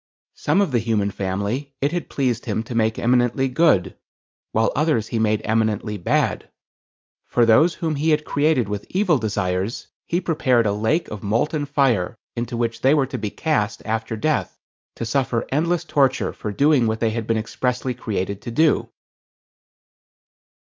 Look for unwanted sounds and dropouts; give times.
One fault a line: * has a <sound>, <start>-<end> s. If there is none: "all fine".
all fine